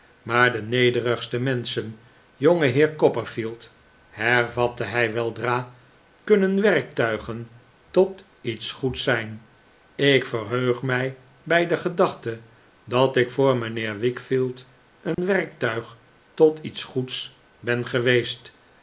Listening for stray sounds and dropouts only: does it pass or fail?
fail